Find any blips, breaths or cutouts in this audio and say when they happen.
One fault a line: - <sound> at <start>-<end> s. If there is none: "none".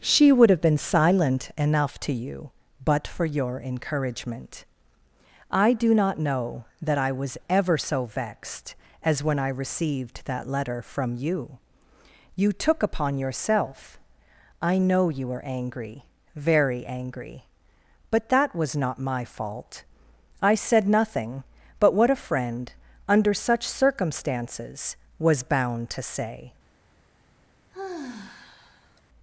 - sigh at 27.7-29.0 s